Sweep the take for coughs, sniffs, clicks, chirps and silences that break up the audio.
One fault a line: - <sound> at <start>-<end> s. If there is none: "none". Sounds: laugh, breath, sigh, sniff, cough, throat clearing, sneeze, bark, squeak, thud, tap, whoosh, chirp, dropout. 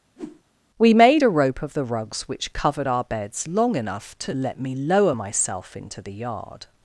- whoosh at 0.2-0.4 s